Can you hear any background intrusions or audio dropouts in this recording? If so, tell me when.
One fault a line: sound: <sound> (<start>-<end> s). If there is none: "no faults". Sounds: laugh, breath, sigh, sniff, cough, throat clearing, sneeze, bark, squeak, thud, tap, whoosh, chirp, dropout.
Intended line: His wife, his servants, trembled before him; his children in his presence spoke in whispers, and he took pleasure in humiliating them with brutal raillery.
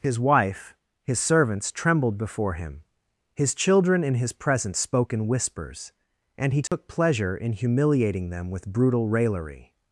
sound: dropout (6.7-6.7 s)